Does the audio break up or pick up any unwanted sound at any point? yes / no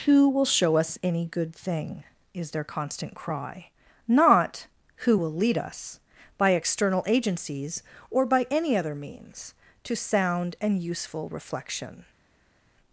no